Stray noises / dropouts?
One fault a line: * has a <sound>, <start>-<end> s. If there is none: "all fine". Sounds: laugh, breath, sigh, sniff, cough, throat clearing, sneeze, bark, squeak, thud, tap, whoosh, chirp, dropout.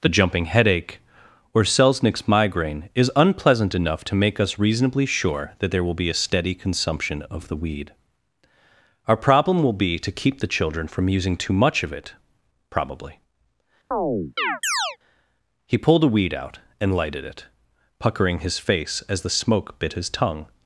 * has a chirp, 13.9-15.0 s